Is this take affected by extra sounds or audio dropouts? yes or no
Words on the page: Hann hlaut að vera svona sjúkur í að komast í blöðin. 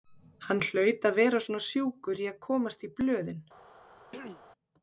yes